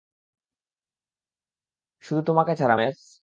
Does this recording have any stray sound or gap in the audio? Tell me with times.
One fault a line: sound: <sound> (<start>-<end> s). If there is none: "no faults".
no faults